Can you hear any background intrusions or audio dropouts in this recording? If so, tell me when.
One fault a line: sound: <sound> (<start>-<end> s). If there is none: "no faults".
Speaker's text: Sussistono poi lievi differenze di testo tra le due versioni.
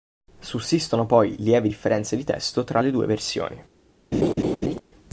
sound: laugh (4.1-4.8 s)